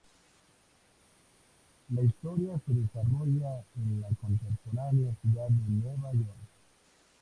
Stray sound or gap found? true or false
false